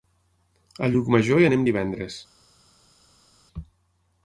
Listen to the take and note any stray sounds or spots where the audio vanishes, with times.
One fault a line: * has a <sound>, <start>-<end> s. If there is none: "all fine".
all fine